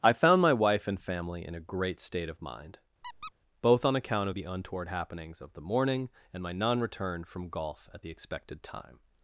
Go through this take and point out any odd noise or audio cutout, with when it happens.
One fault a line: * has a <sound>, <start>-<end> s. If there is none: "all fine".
* has a squeak, 3.0-3.3 s